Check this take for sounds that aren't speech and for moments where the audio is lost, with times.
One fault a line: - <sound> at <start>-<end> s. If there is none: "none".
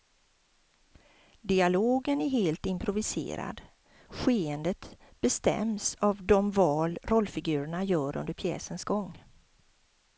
none